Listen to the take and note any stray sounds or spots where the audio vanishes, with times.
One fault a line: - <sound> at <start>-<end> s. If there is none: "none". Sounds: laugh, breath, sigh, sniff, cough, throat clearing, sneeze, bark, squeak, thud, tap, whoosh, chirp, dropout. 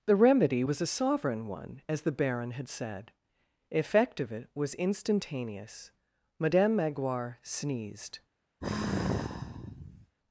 - sigh at 8.6-10.2 s